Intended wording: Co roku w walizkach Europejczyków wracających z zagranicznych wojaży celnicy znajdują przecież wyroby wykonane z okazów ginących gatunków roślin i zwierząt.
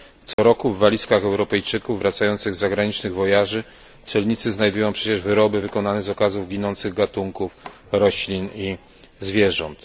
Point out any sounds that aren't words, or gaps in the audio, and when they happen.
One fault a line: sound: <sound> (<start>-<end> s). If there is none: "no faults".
sound: dropout (0.3-0.4 s)